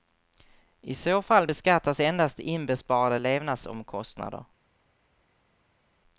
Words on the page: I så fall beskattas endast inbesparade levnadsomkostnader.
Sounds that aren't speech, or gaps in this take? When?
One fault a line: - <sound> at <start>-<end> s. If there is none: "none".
none